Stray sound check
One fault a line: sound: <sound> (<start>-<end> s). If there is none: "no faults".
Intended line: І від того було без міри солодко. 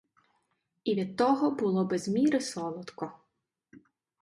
no faults